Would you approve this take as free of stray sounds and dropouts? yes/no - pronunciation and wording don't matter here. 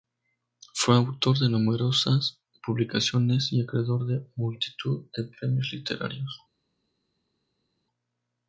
yes